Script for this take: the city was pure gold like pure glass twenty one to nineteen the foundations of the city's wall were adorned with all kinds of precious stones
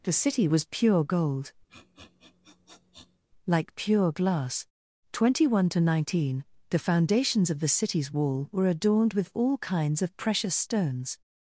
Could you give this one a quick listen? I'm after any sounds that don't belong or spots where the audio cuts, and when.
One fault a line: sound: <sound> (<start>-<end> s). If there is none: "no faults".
sound: sniff (1.7-3.2 s)